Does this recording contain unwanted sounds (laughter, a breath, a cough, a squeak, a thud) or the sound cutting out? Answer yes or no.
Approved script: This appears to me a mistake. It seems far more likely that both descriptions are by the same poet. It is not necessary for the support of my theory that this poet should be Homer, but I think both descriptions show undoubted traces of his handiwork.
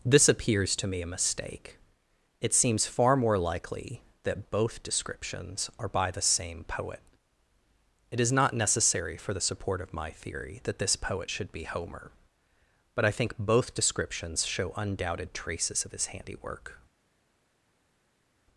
no